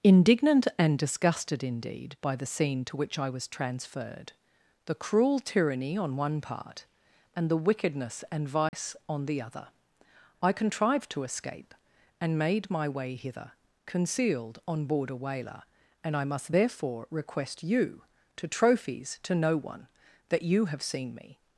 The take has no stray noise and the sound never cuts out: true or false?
false